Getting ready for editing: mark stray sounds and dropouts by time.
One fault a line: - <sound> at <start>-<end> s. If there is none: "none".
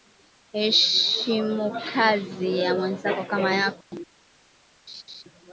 - dropout at 3.8-3.9 s
- laugh at 4.9-5.2 s